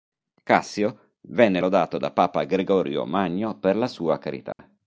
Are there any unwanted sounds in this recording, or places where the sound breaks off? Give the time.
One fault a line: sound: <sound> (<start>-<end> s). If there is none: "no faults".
sound: dropout (4.5-4.6 s)